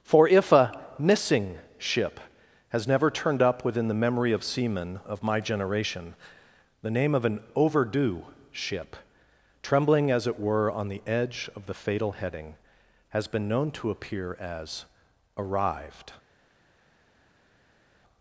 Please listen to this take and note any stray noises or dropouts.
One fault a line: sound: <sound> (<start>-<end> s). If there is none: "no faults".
no faults